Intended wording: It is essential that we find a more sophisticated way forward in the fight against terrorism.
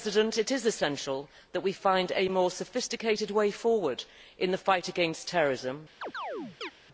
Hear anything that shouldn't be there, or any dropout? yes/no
yes